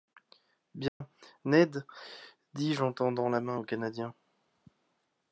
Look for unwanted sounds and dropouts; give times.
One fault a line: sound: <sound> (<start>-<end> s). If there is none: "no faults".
sound: dropout (0.9-1.0 s)